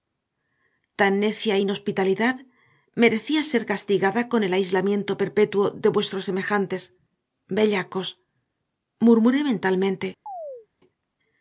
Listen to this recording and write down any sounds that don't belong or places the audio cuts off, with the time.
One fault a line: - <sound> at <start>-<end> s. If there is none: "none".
- chirp at 10.3-10.7 s